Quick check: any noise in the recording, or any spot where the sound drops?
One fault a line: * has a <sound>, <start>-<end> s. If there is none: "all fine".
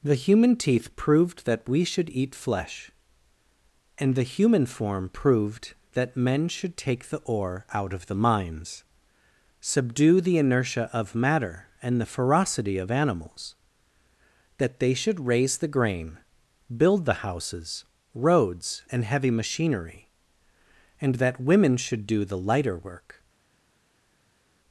all fine